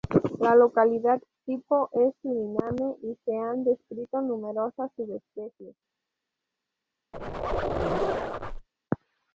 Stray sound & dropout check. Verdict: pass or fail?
fail